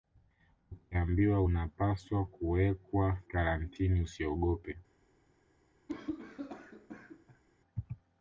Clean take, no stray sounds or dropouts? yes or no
no